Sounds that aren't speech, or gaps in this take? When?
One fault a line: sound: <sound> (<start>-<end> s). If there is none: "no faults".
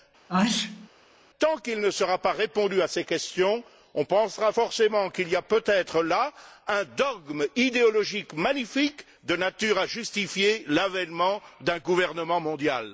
sound: sneeze (0.3-0.9 s)